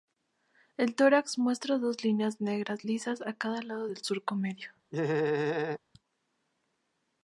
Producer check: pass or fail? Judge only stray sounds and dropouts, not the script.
fail